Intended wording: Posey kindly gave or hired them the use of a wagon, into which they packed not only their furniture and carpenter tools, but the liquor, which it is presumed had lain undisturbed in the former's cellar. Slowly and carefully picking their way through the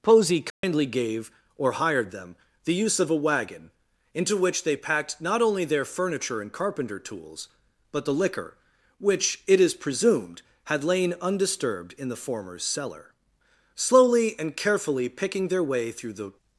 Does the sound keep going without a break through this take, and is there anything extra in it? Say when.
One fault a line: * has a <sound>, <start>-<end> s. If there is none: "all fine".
* has a dropout, 0.5-0.6 s